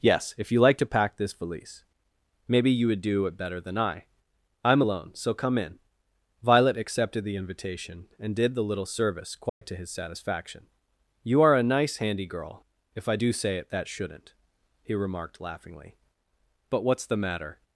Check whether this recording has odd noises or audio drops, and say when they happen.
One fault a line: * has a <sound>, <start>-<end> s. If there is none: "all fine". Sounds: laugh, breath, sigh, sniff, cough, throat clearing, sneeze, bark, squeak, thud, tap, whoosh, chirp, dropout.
* has a dropout, 9.5-9.6 s